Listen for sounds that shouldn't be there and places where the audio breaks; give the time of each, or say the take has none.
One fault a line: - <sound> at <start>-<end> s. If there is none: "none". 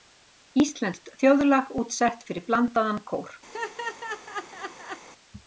- laugh at 3.5-5.1 s